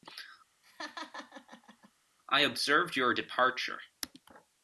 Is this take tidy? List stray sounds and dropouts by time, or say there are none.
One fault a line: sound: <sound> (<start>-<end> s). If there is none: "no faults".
sound: laugh (0.6-1.9 s)